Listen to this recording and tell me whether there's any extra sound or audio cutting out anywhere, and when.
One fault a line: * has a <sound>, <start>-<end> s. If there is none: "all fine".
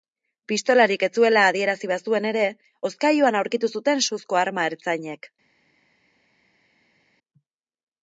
all fine